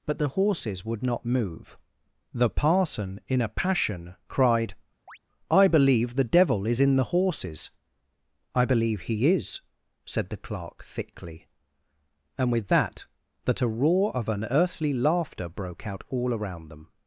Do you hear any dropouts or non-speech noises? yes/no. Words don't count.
yes